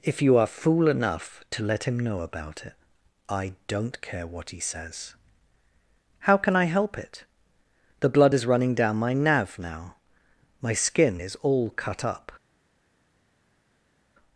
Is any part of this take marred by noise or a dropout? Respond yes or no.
no